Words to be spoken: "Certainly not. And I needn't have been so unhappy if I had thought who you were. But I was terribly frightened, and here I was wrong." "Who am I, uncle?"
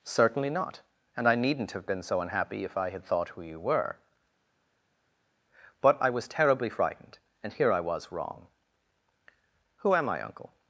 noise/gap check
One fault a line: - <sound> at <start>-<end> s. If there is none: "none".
none